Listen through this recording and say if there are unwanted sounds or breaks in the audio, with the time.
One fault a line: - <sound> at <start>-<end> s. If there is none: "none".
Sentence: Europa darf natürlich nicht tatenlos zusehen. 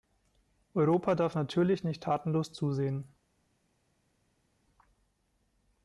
none